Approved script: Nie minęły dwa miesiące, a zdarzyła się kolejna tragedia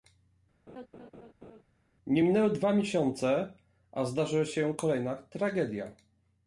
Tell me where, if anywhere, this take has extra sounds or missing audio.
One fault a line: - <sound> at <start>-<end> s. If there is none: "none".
- laugh at 0.7-1.6 s